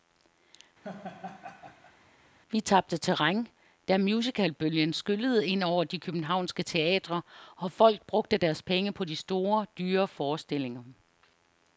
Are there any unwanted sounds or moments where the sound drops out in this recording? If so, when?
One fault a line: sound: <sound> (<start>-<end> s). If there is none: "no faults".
sound: laugh (0.8-2.0 s)